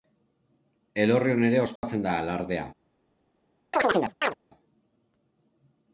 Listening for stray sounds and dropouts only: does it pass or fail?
fail